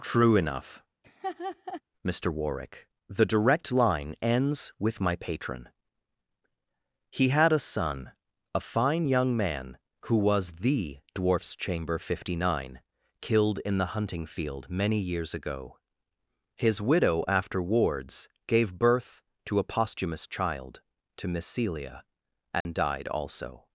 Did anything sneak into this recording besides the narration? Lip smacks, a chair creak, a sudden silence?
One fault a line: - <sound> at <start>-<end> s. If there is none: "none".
- laugh at 1.0-1.8 s
- dropout at 22.6-22.7 s